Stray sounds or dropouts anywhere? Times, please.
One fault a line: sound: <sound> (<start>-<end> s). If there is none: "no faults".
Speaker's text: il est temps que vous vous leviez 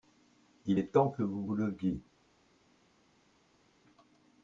no faults